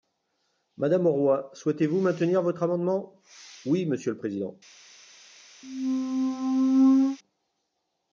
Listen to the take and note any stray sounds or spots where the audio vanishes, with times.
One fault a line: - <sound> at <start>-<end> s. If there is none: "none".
- squeak at 5.6-7.2 s